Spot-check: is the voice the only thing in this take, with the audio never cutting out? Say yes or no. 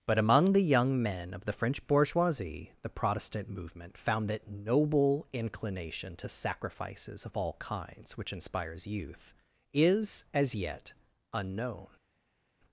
yes